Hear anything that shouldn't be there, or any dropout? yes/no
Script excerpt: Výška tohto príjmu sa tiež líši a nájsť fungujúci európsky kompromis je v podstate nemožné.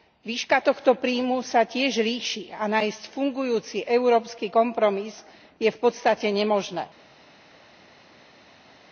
no